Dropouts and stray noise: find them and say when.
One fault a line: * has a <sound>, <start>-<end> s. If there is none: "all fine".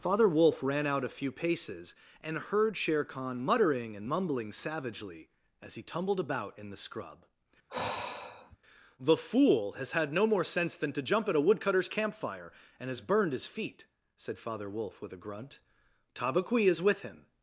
* has a sigh, 7.7-8.6 s